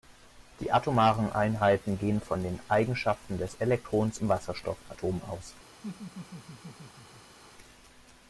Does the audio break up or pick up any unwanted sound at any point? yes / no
yes